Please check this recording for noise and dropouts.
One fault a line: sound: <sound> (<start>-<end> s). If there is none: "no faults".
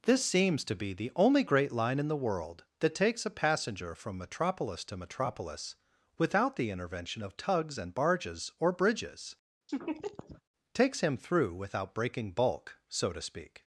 sound: laugh (9.7-10.4 s)